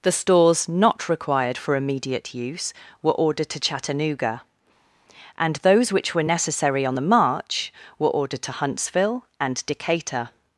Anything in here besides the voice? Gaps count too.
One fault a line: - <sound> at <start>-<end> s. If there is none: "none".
none